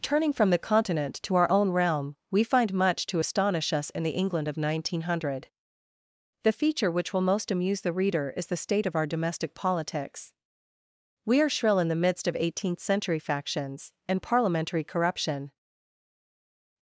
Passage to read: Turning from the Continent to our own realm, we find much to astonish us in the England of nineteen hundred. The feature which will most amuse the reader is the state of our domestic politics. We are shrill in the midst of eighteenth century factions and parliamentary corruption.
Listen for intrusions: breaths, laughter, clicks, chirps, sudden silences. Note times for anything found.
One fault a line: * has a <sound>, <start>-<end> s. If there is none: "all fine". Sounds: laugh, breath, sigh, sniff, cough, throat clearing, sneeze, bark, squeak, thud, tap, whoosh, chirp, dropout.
all fine